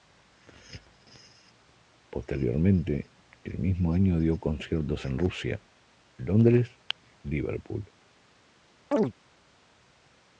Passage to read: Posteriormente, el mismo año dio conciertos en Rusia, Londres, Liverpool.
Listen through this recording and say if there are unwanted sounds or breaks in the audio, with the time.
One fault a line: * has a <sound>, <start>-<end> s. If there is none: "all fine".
* has a chirp, 8.9-9.1 s